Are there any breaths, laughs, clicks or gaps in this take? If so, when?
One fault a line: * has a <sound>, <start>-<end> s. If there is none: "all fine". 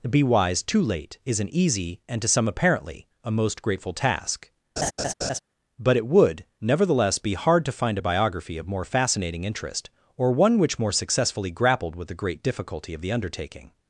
* has a laugh, 4.8-5.4 s